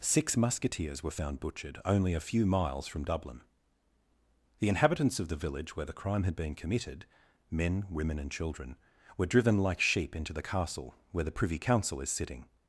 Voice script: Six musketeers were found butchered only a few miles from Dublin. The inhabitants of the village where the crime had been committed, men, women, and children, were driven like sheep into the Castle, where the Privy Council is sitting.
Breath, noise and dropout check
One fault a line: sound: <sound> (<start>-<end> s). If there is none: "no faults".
no faults